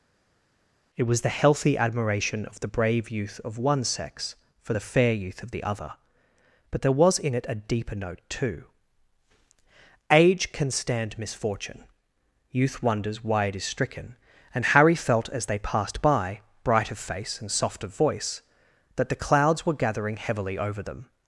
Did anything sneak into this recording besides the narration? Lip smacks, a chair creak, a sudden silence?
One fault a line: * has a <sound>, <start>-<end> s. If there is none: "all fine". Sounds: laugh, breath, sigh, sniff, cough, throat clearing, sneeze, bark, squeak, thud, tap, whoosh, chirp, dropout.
all fine